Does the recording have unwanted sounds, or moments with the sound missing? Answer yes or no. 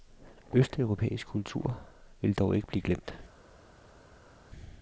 no